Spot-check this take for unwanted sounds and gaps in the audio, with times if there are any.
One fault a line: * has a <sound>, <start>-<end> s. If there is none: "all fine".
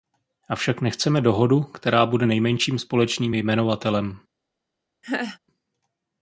* has a laugh, 5.0-5.4 s